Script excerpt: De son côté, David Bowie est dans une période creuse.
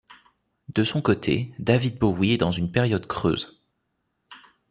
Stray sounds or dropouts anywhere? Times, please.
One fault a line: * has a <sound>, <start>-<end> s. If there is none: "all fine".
all fine